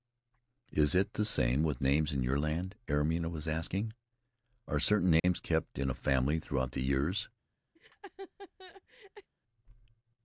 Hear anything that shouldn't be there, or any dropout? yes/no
yes